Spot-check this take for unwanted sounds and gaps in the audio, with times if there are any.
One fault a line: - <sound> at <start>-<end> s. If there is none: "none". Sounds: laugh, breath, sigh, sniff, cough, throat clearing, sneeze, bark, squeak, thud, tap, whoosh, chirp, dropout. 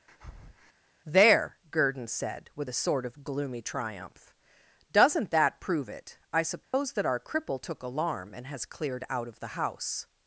- breath at 0.1-0.7 s
- dropout at 6.6-6.7 s